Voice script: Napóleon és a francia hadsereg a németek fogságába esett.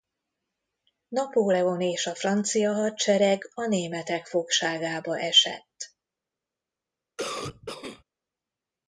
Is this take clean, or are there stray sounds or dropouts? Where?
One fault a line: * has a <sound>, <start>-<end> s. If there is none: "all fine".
* has a cough, 7.2-8.0 s